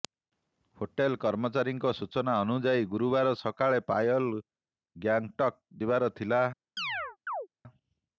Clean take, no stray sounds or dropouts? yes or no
no